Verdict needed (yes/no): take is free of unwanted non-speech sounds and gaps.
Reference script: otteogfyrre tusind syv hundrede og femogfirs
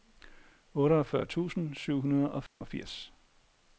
no